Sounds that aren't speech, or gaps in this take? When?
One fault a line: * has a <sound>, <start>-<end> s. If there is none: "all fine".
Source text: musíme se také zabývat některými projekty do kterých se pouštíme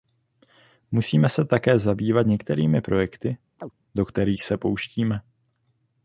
* has a chirp, 3.6-3.7 s